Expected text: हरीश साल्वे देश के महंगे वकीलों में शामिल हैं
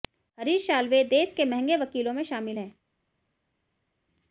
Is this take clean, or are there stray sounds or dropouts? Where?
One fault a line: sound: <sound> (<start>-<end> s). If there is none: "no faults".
no faults